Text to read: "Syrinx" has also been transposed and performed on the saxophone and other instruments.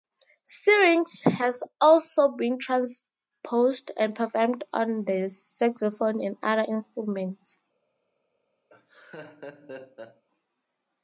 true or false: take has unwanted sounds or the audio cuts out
true